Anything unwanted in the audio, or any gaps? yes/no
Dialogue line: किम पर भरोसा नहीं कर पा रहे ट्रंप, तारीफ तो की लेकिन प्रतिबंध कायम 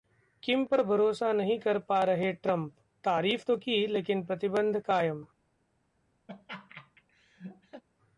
yes